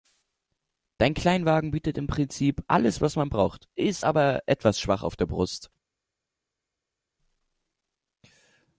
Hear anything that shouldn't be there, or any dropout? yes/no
no